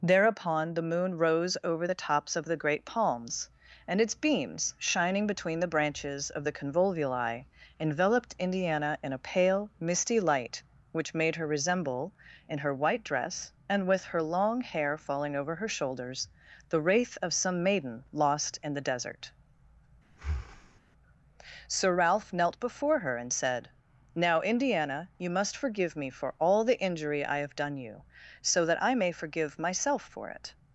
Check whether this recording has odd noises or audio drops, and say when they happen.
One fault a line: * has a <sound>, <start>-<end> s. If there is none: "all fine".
* has a breath, 20.1-20.8 s